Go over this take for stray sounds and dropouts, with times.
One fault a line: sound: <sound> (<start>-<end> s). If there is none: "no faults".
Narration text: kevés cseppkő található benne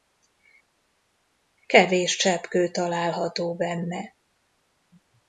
no faults